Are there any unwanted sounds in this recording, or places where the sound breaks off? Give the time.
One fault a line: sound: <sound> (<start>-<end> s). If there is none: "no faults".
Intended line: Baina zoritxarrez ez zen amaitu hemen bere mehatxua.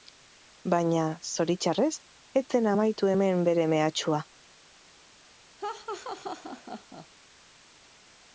sound: laugh (5.6-7.1 s)